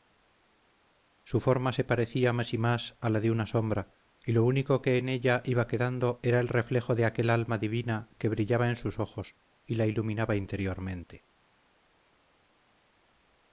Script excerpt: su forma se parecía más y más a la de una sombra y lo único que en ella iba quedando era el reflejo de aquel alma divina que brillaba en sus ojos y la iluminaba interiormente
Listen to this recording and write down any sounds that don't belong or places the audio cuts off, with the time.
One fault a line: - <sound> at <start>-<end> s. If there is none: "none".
none